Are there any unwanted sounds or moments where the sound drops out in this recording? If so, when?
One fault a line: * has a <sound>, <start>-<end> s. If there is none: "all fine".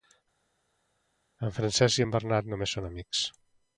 all fine